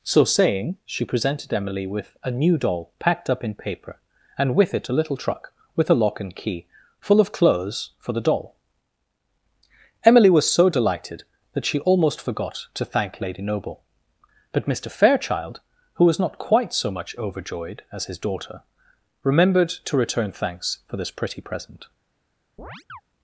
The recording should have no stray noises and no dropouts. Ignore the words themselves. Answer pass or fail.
fail